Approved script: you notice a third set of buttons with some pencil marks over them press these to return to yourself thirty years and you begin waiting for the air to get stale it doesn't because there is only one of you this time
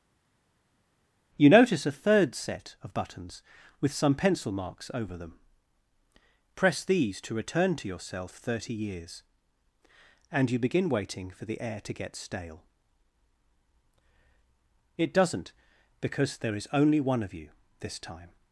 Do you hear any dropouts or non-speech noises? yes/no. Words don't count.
no